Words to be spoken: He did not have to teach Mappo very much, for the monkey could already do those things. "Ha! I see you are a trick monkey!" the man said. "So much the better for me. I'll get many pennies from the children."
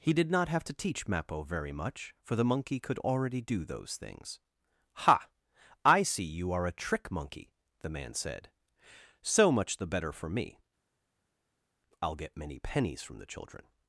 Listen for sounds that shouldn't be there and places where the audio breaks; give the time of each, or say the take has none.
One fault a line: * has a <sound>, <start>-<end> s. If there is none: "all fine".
all fine